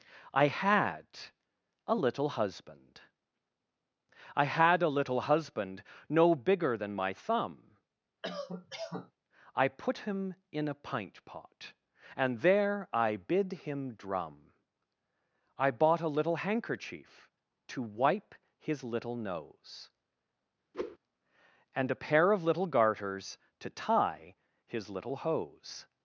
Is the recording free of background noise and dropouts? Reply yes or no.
no